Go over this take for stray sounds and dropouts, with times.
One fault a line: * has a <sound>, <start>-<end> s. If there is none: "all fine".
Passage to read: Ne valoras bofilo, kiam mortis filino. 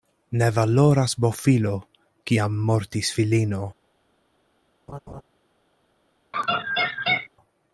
* has a laugh, 4.9-5.2 s
* has a laugh, 6.3-7.3 s